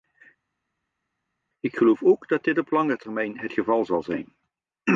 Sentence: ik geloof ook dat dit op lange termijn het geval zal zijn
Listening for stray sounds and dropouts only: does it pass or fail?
pass